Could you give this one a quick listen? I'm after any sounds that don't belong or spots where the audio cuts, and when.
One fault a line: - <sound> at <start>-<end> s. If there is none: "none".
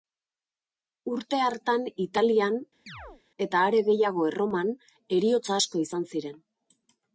- chirp at 2.9-3.2 s